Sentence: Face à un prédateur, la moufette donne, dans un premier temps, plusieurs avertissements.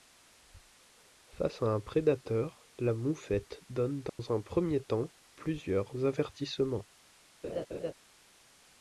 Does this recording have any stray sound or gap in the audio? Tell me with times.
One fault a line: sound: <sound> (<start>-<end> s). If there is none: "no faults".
sound: dropout (4.1-4.2 s)
sound: laugh (7.4-7.9 s)